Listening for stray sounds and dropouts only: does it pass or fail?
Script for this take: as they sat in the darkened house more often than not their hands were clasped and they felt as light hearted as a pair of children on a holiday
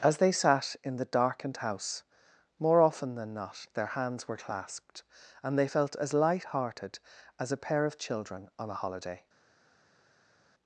pass